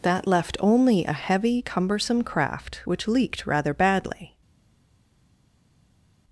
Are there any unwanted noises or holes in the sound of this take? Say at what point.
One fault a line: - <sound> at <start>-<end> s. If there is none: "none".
none